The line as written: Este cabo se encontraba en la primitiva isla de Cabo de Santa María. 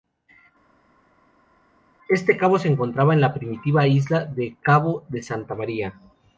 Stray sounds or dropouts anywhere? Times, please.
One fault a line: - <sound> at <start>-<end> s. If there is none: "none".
none